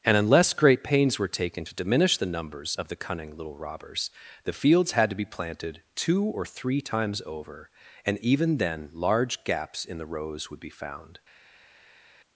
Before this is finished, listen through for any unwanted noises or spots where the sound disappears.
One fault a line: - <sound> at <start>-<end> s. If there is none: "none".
none